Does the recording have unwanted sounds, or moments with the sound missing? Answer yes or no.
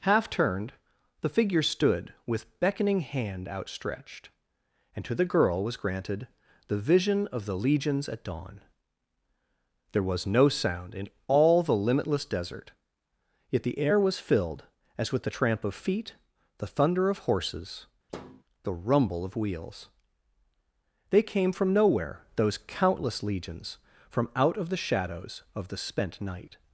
yes